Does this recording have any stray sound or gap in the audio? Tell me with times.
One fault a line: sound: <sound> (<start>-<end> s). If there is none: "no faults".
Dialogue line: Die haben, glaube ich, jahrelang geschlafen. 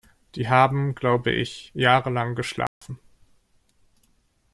sound: dropout (2.7-2.8 s)